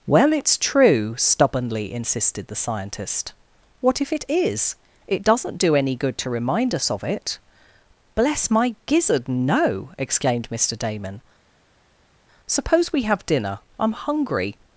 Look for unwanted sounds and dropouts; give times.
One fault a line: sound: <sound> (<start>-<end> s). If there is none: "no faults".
no faults